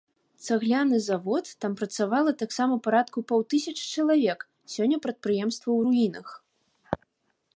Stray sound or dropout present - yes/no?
no